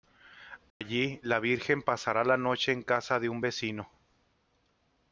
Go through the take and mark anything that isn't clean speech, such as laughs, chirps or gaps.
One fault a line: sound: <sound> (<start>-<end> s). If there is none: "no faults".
sound: dropout (0.7-0.8 s)